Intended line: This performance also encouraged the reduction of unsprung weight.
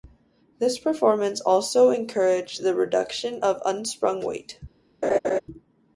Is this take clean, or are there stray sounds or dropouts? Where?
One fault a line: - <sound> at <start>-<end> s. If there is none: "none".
- laugh at 5.0-5.4 s